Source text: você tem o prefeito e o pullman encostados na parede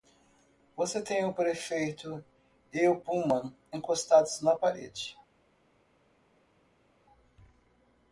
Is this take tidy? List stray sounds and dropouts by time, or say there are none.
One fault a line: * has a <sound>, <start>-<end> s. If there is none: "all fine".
all fine